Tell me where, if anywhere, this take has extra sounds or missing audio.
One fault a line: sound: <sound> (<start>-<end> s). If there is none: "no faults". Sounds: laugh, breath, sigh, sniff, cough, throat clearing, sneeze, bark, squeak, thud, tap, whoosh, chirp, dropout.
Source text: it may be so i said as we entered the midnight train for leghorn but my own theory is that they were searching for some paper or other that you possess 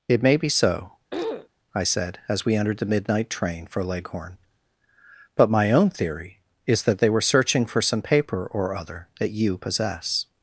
sound: throat clearing (1.1-1.5 s)